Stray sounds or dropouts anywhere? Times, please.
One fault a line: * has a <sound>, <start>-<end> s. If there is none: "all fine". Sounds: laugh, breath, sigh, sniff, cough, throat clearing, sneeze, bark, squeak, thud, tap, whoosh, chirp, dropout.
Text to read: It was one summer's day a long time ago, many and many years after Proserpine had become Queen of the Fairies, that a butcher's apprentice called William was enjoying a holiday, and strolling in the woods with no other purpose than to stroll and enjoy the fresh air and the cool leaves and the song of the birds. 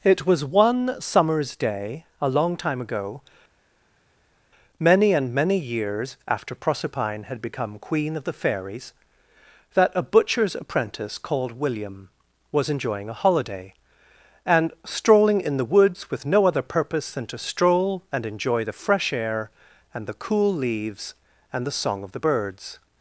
all fine